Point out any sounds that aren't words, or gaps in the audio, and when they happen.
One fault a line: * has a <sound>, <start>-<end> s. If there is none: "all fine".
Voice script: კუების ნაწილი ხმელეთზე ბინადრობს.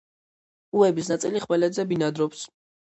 all fine